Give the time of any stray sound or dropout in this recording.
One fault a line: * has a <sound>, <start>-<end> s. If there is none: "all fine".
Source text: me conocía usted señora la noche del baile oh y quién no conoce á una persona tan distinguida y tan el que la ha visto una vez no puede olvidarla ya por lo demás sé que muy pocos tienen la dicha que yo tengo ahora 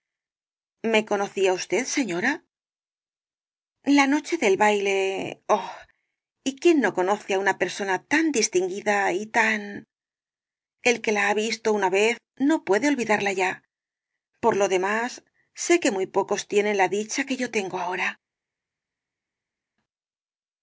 all fine